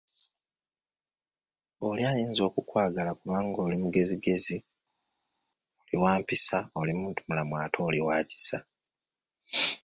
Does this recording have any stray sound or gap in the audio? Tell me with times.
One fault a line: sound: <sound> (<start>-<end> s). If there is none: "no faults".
no faults